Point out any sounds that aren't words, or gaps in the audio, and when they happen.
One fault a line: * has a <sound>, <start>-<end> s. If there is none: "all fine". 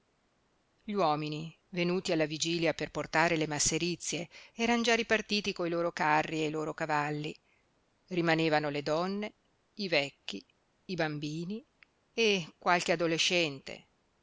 all fine